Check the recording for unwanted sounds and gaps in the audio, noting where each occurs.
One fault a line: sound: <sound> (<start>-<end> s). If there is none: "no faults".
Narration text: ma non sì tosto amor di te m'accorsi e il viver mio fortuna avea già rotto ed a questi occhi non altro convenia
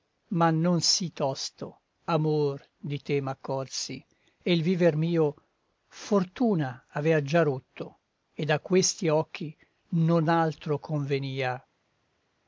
no faults